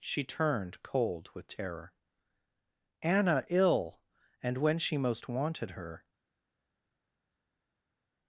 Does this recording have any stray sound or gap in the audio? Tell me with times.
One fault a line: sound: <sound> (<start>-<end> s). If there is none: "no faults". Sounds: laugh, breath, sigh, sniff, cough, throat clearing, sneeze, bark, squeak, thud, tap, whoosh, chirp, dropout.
no faults